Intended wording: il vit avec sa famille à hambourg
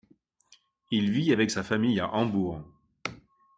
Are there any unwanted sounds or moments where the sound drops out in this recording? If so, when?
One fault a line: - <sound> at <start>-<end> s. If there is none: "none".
none